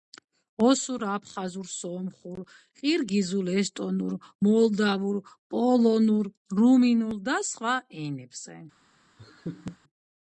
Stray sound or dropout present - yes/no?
yes